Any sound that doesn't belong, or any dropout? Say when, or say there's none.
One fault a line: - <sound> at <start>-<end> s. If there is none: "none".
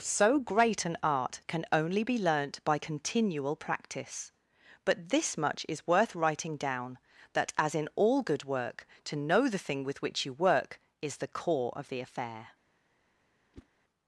- whoosh at 13.5-13.7 s